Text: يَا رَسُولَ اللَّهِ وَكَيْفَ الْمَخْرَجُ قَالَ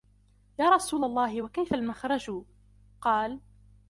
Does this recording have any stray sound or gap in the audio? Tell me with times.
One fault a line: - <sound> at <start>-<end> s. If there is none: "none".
none